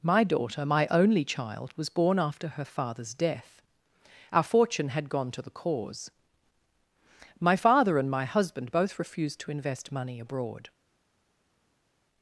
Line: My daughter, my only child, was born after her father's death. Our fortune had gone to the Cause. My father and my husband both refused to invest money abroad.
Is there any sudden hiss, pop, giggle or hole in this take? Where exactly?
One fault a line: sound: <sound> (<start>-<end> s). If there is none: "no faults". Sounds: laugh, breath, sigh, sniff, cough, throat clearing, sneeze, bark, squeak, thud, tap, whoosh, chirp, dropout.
no faults